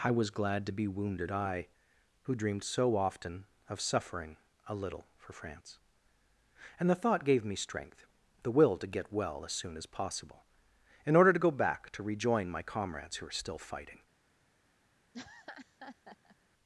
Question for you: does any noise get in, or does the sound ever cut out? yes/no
yes